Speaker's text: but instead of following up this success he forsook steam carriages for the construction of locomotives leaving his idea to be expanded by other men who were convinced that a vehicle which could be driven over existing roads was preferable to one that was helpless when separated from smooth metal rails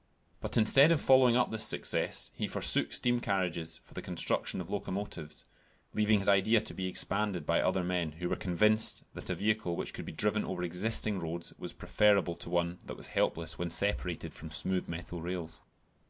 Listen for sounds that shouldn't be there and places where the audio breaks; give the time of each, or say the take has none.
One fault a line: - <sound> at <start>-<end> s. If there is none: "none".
none